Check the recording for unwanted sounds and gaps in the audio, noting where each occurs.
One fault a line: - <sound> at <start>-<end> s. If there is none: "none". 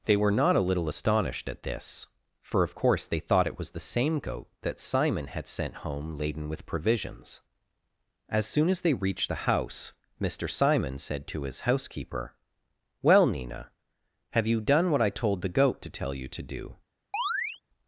- chirp at 17.1-17.6 s